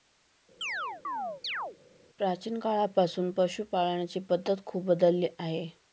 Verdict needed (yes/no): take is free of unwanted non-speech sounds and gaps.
no